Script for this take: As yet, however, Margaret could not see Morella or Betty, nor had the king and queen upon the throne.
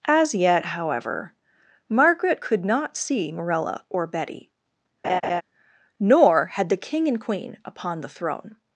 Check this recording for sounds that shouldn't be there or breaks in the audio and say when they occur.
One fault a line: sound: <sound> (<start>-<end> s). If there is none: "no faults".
sound: laugh (5.0-5.4 s)